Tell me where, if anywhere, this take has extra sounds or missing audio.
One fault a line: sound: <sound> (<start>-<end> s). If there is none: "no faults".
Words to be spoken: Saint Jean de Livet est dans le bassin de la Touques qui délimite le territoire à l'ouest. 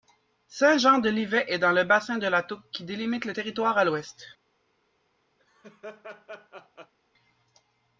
sound: laugh (5.4-6.9 s)